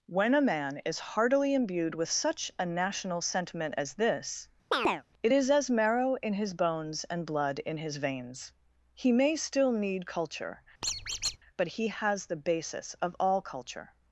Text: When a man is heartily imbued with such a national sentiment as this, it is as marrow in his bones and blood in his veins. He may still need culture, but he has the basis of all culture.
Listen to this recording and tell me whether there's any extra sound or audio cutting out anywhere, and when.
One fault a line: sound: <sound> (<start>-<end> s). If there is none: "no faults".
sound: chirp (4.7-5.0 s)
sound: squeak (10.8-11.4 s)